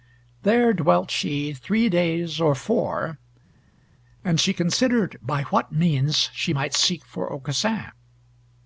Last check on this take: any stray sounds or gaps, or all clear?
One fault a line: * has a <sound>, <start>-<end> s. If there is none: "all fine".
all fine